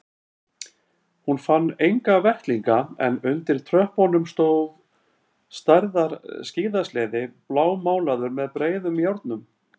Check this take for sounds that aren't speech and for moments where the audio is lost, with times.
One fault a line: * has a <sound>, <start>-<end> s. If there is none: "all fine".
all fine